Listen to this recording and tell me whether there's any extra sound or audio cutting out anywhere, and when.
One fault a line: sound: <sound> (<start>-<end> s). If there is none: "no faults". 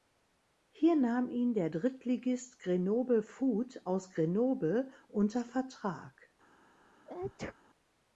sound: sneeze (7.1-7.6 s)